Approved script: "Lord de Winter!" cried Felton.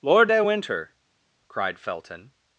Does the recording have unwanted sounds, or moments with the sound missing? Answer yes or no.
no